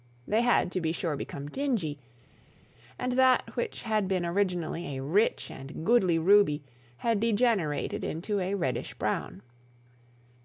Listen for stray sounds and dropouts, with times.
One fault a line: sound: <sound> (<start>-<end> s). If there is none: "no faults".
no faults